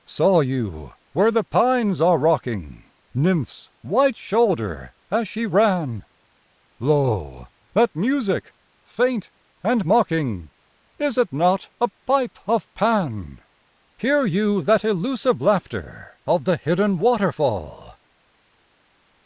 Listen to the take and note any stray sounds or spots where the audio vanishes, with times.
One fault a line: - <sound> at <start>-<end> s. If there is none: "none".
none